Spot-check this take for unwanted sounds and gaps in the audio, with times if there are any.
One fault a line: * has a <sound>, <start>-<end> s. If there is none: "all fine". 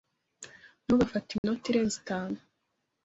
* has a dropout, 1.4-1.4 s